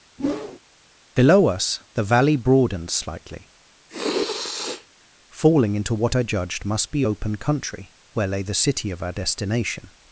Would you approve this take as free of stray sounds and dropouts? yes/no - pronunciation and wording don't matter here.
no